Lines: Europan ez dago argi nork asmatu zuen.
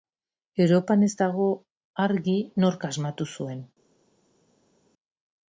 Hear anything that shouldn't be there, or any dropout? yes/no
no